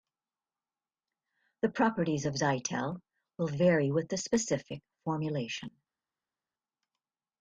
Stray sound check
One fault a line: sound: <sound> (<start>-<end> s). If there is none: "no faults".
no faults